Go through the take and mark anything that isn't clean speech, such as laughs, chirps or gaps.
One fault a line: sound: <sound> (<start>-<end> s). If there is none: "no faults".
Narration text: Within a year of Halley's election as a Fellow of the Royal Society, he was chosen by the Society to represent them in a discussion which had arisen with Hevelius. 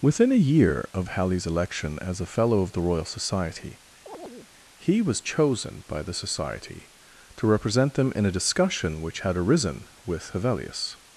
sound: chirp (4.1-4.5 s)